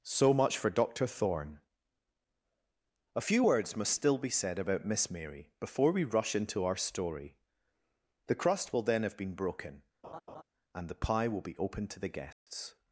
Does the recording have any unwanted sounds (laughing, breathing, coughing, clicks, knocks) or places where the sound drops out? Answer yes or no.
yes